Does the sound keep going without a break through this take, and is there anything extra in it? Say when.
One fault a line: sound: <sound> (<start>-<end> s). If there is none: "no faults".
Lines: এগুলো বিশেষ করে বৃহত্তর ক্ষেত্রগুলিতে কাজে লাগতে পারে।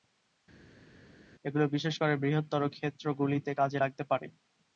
no faults